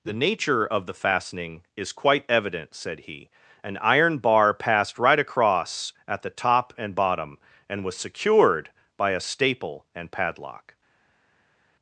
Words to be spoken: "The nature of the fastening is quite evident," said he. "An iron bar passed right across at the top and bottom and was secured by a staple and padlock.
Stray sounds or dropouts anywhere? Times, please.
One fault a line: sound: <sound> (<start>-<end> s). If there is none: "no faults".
no faults